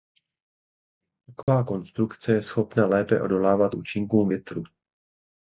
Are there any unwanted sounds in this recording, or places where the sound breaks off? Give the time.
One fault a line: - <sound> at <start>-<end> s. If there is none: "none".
- dropout at 1.4-1.5 s